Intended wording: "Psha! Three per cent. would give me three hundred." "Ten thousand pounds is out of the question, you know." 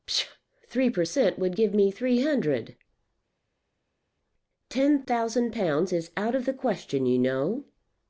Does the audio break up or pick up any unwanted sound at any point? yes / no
no